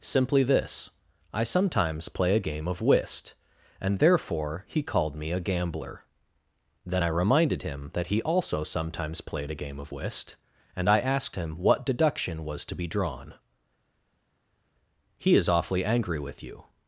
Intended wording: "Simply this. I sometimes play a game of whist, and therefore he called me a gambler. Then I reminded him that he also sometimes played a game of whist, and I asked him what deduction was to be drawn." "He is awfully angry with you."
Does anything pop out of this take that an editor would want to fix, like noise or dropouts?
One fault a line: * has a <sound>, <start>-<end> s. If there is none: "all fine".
all fine